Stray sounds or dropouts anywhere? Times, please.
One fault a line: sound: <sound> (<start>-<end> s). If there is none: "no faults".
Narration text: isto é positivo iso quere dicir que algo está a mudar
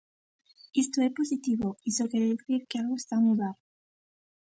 no faults